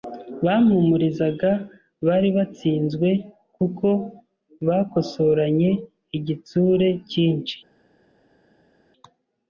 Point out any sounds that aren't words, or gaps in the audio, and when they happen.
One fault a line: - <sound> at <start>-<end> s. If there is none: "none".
none